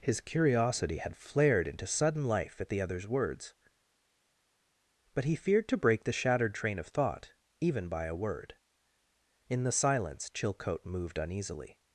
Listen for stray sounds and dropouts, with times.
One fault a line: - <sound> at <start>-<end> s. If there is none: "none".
none